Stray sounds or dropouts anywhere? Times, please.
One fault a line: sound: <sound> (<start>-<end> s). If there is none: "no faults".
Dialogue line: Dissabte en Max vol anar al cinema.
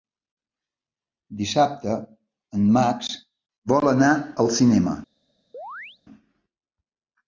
sound: chirp (5.5-6.0 s)